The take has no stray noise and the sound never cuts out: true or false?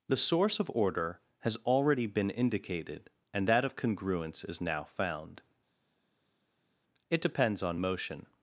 true